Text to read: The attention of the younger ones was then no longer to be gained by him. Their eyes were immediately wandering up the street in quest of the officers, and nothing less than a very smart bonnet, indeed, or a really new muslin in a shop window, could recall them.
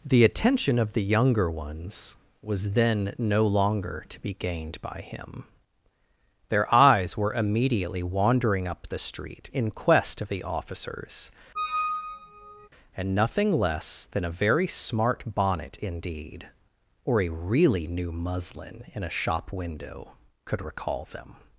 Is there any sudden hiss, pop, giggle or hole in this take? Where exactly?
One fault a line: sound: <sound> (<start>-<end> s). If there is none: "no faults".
sound: squeak (11.5-12.7 s)